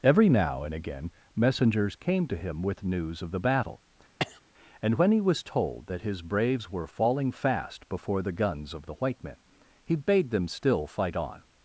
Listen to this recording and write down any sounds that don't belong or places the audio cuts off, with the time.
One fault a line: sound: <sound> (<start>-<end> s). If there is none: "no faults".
sound: cough (4.2-4.4 s)